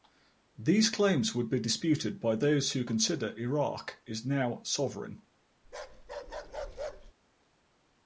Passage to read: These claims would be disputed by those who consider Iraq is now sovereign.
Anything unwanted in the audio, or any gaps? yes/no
yes